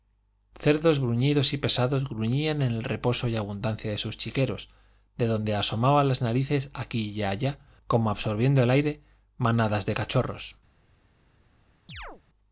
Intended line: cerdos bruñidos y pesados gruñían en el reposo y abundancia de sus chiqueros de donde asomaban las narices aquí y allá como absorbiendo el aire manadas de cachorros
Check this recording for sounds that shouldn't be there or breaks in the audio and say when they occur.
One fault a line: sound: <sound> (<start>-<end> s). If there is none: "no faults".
sound: chirp (11.9-12.2 s)